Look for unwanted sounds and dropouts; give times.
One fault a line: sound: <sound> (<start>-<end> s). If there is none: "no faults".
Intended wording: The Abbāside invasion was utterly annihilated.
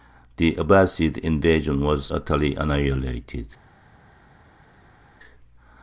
no faults